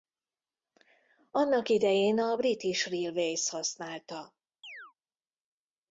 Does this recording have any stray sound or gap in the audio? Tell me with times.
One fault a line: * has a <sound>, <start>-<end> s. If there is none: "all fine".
* has a chirp, 4.6-4.9 s